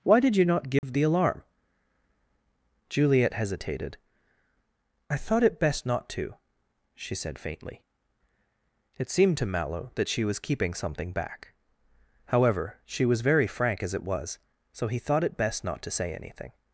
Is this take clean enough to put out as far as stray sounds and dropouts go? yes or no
no